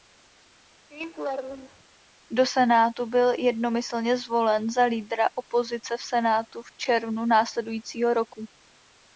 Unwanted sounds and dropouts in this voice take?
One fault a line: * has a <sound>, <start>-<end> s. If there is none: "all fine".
* has a laugh, 0.9-1.8 s